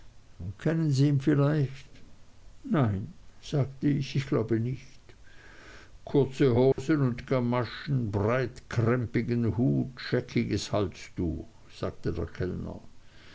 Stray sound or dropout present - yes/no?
yes